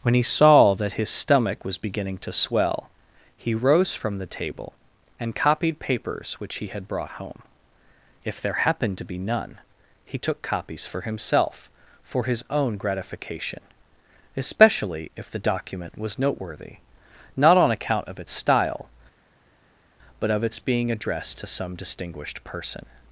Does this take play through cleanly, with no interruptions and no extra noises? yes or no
yes